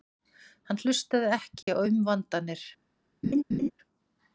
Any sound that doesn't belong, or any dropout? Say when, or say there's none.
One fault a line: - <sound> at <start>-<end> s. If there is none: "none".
- dropout at 1.6-1.7 s
- laugh at 3.2-3.7 s